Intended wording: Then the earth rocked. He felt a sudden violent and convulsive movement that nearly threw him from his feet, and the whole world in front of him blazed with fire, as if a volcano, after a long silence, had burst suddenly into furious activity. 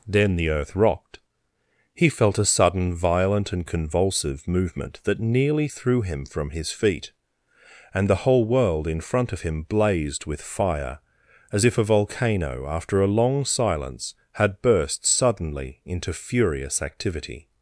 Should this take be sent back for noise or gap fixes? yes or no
no